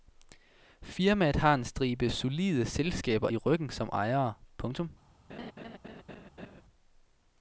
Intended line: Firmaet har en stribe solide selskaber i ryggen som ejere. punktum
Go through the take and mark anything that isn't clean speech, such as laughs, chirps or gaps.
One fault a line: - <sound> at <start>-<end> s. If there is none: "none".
- laugh at 5.3-6.6 s